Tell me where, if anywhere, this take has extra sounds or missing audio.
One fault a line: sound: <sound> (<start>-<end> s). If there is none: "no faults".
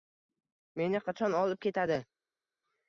no faults